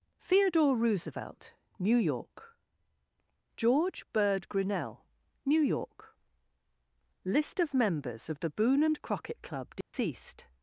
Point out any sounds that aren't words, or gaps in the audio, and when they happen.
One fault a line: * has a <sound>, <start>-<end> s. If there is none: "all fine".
* has a dropout, 9.8-9.9 s